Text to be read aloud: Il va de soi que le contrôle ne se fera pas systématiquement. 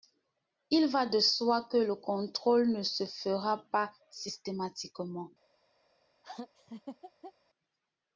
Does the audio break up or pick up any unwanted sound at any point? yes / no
yes